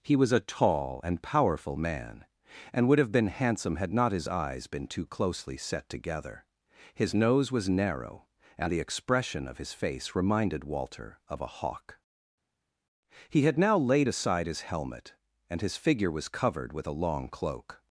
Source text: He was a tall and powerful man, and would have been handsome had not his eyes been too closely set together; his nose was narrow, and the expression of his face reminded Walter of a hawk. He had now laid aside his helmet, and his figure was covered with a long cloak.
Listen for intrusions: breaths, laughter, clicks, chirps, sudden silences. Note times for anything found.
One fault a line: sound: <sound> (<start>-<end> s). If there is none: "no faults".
no faults